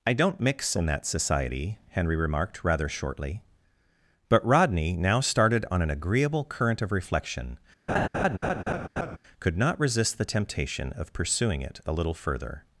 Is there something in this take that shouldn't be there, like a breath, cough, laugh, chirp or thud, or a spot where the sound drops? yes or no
yes